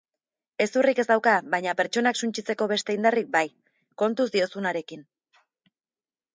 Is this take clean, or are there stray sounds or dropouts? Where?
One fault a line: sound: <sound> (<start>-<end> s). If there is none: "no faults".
no faults